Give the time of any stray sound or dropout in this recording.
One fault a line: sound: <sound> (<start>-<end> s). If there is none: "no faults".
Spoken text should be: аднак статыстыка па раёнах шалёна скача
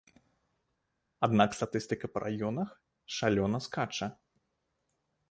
no faults